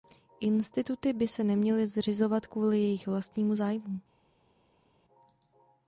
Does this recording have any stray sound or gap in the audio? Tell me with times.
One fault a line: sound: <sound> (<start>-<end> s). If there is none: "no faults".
no faults